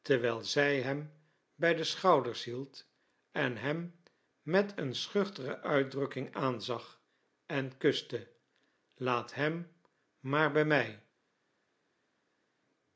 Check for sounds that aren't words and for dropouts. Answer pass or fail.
pass